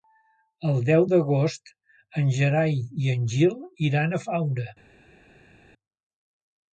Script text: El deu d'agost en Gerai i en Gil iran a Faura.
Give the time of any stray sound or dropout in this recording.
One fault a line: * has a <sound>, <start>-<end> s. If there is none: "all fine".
all fine